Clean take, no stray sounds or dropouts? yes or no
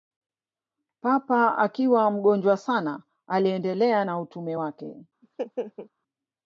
no